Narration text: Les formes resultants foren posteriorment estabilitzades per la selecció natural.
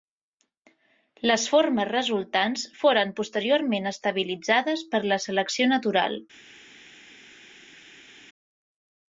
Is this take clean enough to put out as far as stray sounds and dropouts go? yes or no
yes